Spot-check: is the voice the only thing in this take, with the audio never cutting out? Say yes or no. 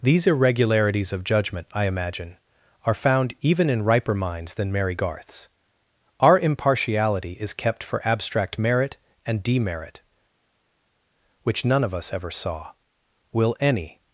yes